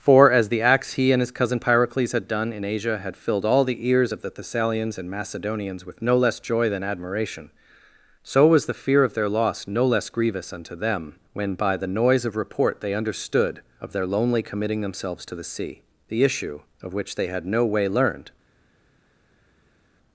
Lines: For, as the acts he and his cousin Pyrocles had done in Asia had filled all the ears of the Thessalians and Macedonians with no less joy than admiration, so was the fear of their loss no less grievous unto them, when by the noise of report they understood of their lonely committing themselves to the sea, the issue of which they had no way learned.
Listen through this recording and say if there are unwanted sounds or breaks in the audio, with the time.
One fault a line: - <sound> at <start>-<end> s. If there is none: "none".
none